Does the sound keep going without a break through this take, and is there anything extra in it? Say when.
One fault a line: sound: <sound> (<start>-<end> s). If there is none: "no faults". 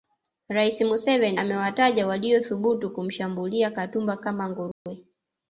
sound: dropout (4.7-4.9 s)